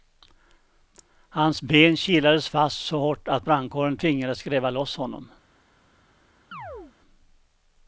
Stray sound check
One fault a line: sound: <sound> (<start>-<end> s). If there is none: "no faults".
sound: chirp (6.5-6.9 s)